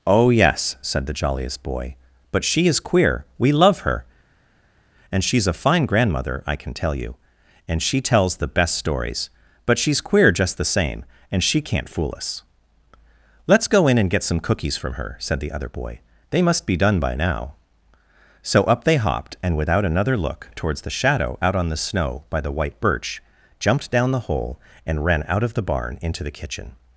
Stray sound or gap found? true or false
false